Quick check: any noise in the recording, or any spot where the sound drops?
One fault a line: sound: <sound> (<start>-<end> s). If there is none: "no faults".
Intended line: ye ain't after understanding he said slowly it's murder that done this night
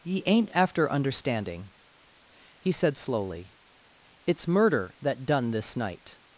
no faults